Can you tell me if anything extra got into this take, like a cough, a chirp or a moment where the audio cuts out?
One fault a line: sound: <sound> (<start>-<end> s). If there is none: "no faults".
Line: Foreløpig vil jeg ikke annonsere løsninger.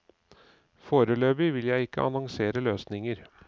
no faults